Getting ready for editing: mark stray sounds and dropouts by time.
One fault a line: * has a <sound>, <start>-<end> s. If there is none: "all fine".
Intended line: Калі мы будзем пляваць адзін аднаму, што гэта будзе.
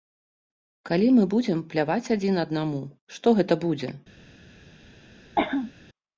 * has a cough, 5.4-5.7 s